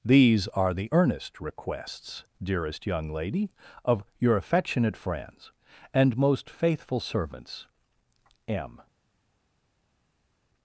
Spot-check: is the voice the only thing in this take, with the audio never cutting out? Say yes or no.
yes